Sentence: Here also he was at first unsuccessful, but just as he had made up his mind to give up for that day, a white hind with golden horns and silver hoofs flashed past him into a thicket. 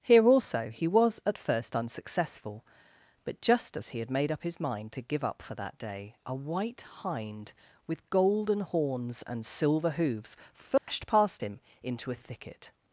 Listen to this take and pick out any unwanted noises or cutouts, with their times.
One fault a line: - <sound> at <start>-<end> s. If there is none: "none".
- dropout at 10.8-10.9 s